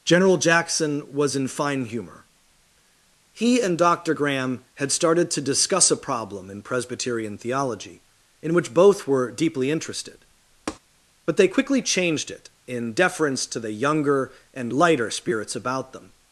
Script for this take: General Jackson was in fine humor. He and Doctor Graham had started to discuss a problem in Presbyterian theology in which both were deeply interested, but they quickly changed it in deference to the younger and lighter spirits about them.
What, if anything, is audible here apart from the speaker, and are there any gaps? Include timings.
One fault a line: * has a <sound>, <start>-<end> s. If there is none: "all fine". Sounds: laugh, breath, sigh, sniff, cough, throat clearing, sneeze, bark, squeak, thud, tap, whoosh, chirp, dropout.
* has a tap, 10.7-10.8 s